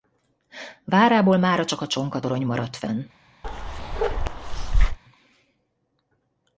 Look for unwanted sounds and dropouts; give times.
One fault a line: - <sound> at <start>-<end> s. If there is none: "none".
- bark at 3.4-5.0 s